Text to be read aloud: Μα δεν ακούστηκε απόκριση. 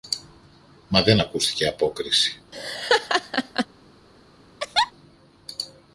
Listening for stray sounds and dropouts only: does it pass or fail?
fail